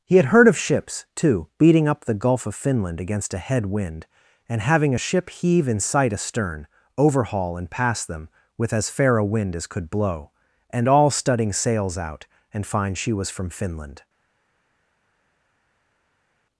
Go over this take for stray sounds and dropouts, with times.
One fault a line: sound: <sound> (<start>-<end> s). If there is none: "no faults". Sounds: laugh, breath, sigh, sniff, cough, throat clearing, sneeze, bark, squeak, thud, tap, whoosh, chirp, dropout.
no faults